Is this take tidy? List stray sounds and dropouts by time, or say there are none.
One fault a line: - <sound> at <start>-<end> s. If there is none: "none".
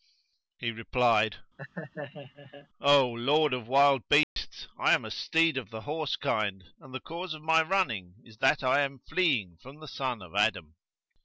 - laugh at 1.6-2.7 s
- dropout at 4.2-4.4 s